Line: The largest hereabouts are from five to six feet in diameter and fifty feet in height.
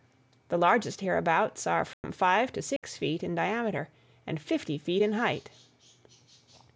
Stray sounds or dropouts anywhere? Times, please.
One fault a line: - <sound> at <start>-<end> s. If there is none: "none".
- dropout at 1.9-2.0 s
- dropout at 2.8-2.8 s